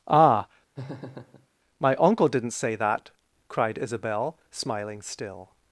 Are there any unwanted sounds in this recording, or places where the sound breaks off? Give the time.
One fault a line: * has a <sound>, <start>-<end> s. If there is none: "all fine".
* has a laugh, 0.8-1.5 s